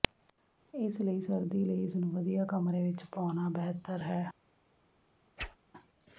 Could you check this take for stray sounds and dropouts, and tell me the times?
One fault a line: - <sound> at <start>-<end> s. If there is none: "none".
- whoosh at 5.4-5.6 s